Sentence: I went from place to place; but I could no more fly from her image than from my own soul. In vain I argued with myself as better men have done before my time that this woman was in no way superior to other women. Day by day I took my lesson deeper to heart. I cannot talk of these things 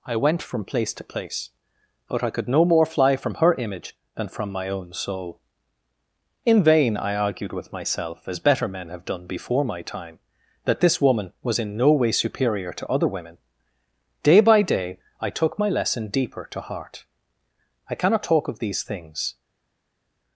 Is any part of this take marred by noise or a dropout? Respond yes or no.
no